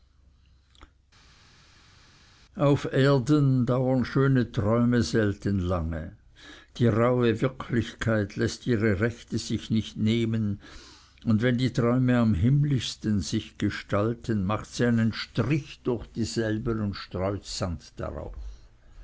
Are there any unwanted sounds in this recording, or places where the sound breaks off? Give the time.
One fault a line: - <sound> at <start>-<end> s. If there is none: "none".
none